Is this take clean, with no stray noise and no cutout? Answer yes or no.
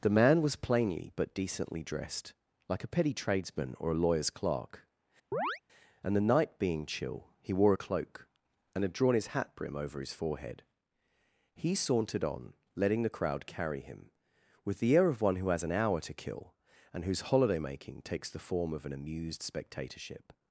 no